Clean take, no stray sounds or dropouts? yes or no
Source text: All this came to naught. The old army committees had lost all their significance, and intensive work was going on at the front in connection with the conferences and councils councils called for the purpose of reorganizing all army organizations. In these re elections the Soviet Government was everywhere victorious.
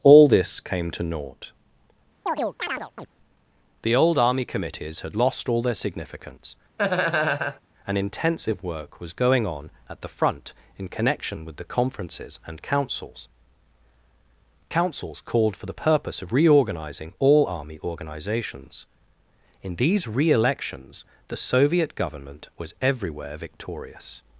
no